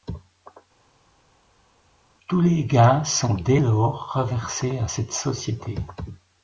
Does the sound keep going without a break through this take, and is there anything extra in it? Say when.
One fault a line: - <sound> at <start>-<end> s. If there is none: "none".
none